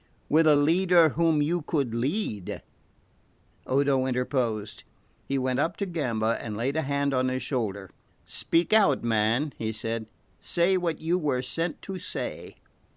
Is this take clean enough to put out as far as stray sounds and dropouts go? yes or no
yes